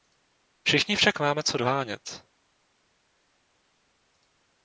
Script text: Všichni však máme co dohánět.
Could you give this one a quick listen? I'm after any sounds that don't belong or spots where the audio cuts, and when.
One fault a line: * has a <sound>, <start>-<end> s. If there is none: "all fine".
all fine